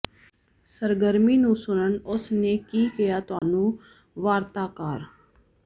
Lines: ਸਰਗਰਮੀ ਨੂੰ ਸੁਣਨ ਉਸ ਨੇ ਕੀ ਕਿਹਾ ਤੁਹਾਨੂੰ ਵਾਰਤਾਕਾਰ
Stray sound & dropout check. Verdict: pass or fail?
fail